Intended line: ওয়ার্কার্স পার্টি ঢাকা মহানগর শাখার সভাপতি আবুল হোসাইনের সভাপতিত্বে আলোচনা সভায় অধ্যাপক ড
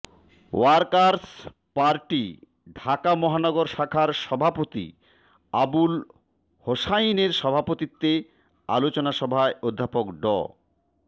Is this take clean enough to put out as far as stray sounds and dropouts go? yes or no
yes